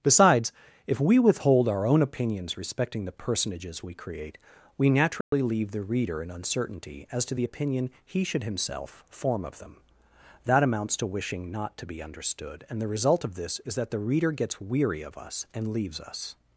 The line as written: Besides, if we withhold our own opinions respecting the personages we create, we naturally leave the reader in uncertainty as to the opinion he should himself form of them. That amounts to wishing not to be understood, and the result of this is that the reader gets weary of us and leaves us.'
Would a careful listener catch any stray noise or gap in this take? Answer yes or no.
yes